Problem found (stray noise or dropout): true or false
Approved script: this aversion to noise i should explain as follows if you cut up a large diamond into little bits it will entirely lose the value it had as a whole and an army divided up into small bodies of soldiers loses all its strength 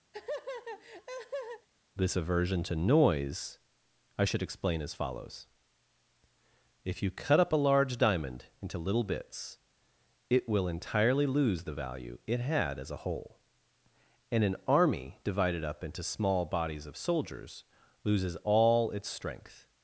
true